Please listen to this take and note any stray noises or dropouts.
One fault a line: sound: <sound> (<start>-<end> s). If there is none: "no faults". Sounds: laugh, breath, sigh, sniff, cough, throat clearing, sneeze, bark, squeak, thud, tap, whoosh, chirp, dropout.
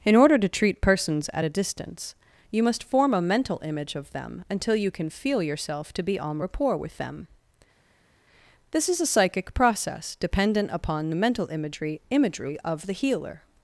no faults